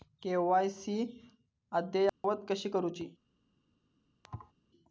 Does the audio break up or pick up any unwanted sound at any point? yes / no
yes